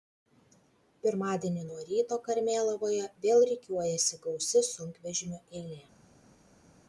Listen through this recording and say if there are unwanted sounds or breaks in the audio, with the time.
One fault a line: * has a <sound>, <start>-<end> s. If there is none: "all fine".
all fine